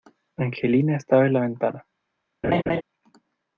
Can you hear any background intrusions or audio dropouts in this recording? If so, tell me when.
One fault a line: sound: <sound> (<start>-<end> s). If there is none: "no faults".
sound: laugh (2.4-2.8 s)